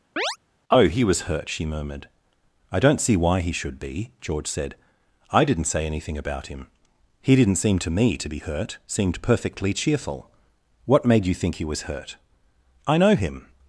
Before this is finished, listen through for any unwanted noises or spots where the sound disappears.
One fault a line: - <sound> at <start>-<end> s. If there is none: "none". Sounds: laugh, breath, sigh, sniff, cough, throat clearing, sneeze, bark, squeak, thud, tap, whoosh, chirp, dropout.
- chirp at 0.2-0.4 s